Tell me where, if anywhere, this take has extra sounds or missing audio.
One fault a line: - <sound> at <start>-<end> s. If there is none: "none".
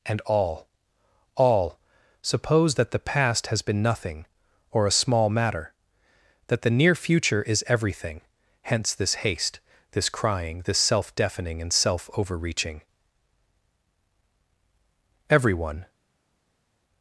none